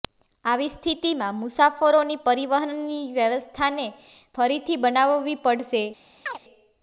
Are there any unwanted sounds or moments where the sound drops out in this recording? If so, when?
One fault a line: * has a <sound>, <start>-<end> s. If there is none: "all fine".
* has a chirp, 6.3-6.4 s